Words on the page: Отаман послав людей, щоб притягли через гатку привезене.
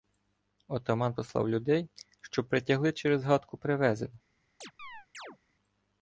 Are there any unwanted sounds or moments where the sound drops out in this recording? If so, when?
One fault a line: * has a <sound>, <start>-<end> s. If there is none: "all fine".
* has a chirp, 4.6-5.4 s